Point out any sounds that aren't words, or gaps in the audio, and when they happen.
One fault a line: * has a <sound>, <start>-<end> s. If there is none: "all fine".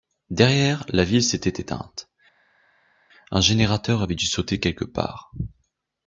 all fine